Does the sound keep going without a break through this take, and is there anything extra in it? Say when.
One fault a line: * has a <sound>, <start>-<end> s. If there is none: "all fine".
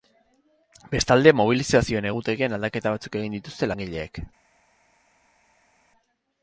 all fine